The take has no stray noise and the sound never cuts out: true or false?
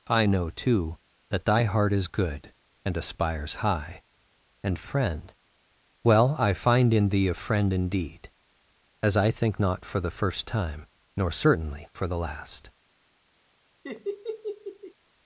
false